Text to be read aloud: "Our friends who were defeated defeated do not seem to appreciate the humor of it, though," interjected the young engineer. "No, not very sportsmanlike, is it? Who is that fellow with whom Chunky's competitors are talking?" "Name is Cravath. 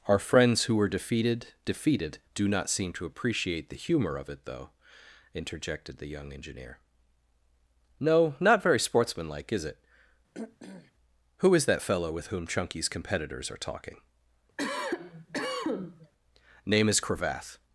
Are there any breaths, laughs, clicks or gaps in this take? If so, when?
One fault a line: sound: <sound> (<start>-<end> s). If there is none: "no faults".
sound: throat clearing (10.3-10.9 s)
sound: cough (14.6-16.1 s)